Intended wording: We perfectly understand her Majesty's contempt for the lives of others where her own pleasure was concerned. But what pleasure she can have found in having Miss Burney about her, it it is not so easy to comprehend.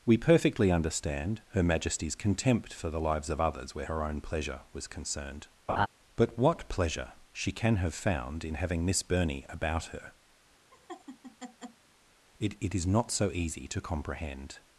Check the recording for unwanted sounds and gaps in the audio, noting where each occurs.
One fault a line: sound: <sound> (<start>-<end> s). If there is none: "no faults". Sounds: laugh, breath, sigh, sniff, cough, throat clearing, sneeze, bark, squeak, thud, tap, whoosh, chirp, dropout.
sound: laugh (5.7-5.9 s)
sound: laugh (10.7-11.8 s)